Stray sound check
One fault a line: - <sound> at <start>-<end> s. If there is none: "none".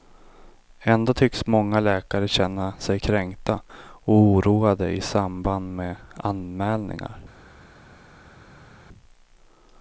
none